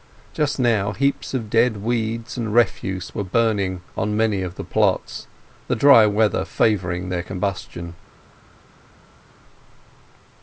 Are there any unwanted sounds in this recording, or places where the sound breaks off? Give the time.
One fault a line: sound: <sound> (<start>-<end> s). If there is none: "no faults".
no faults